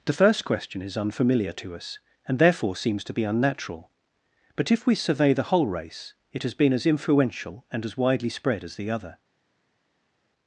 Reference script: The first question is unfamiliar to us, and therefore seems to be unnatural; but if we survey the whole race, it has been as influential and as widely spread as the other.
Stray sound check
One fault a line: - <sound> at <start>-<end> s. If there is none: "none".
none